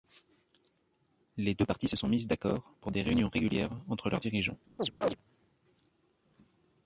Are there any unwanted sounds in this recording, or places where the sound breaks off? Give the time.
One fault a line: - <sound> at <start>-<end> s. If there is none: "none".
- chirp at 4.8-5.2 s